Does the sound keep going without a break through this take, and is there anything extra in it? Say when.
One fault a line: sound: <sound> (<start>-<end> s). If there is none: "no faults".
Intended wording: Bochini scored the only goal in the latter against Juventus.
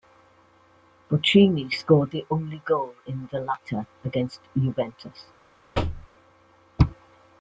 sound: thud (5.7-6.1 s)